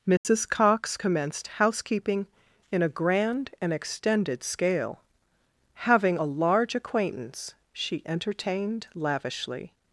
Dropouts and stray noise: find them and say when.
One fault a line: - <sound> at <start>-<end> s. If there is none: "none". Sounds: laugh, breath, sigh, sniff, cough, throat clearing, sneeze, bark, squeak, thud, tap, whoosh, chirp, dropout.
- dropout at 0.2-0.3 s